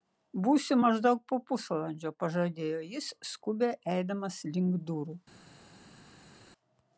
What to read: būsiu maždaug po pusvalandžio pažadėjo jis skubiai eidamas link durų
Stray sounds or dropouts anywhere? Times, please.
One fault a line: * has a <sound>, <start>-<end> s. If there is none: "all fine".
all fine